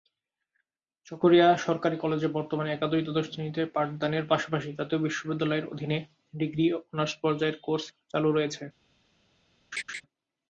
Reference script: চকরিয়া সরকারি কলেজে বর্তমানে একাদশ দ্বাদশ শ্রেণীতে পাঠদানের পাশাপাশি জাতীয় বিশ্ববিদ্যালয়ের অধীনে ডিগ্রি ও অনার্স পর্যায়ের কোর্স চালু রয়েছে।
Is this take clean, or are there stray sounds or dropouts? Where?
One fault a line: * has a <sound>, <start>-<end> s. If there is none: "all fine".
* has a laugh, 9.7-10.0 s